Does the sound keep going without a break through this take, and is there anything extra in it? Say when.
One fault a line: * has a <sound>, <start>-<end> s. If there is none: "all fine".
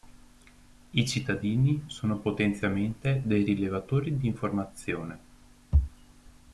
all fine